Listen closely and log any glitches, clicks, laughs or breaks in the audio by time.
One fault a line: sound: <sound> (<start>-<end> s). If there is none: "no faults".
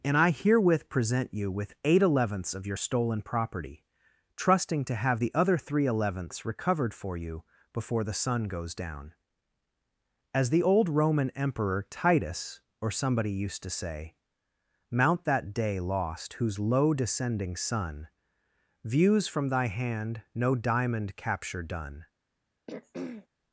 sound: throat clearing (22.7-23.3 s)